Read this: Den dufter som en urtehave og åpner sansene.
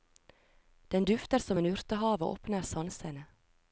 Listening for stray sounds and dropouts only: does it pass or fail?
pass